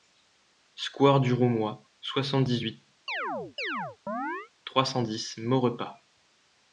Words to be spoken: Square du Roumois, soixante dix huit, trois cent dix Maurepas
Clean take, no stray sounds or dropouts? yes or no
no